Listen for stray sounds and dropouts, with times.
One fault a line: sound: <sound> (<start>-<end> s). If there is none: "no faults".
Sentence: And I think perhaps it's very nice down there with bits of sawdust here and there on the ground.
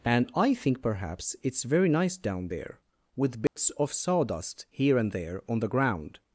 sound: dropout (3.5-3.6 s)